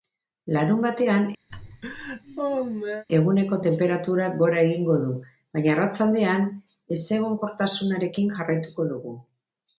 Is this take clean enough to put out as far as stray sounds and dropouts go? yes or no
no